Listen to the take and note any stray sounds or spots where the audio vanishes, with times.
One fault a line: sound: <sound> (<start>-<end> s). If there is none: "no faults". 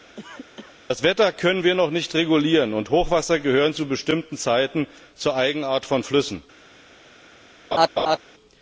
sound: cough (0.2-0.8 s)
sound: laugh (7.7-8.2 s)